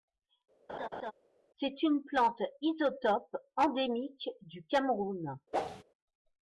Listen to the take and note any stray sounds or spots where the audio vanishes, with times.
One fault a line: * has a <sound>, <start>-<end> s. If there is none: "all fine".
* has a laugh, 0.7-1.1 s
* has a whoosh, 5.5-5.8 s